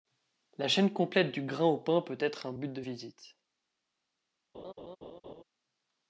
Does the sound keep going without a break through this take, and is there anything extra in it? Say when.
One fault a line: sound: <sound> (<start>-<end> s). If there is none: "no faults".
sound: laugh (4.5-5.4 s)